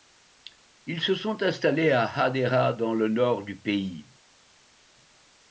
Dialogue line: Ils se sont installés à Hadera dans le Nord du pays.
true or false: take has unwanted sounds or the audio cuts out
false